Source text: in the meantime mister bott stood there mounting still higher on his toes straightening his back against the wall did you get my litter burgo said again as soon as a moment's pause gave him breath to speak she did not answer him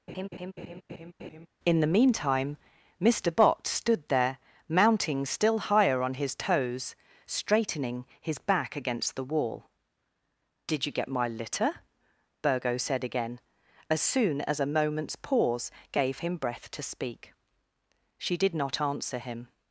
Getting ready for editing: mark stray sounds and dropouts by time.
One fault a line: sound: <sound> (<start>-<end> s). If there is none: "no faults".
sound: laugh (0.1-1.5 s)